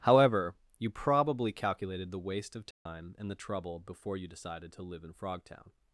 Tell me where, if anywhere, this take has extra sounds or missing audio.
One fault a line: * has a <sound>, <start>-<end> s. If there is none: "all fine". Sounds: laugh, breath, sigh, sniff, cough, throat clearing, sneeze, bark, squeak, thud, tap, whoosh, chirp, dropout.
* has a dropout, 2.7-2.9 s